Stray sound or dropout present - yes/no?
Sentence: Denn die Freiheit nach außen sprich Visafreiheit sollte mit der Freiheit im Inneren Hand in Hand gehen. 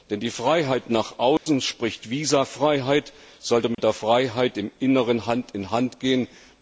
yes